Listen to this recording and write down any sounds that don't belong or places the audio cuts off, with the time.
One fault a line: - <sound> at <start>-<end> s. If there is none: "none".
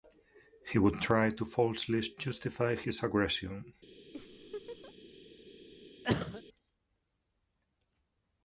- laugh at 4.1-4.9 s
- cough at 6.0-6.4 s